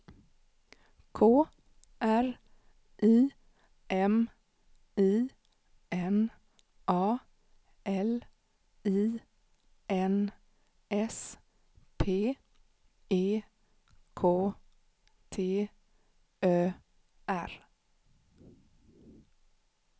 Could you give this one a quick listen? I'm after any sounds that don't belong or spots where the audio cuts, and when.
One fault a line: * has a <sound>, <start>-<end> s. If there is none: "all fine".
all fine